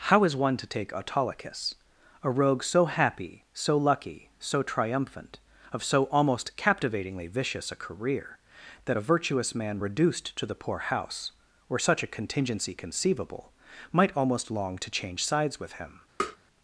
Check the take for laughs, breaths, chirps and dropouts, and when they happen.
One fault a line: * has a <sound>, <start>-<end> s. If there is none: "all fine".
* has a tap, 16.2-16.4 s